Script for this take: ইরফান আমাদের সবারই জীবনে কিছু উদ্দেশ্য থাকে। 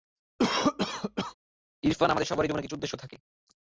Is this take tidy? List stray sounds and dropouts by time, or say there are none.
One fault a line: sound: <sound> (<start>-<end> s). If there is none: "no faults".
sound: cough (0.4-1.3 s)